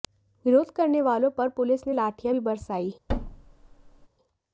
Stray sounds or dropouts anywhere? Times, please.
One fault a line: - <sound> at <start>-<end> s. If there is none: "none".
- thud at 3.1-4.1 s